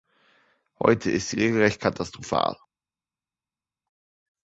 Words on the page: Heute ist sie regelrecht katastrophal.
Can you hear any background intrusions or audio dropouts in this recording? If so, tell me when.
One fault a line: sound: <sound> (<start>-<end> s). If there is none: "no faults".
no faults